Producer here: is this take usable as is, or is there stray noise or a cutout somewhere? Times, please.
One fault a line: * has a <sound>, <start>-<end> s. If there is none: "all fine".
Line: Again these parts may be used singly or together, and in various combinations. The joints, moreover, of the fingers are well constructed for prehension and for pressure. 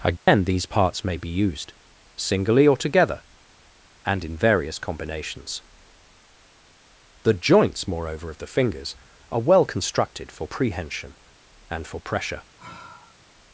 * has a dropout, 0.2-0.3 s
* has a sigh, 12.6-13.3 s